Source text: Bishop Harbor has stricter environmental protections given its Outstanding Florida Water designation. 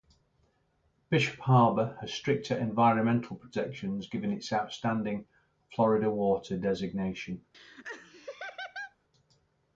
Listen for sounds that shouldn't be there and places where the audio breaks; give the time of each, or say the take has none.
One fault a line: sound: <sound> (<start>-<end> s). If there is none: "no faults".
sound: laugh (7.5-9.0 s)